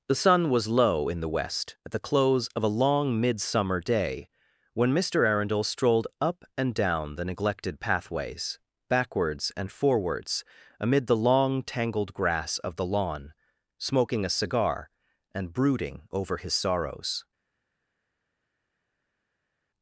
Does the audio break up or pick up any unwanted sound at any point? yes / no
no